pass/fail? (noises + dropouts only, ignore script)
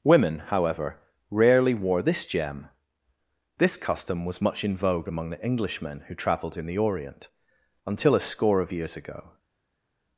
pass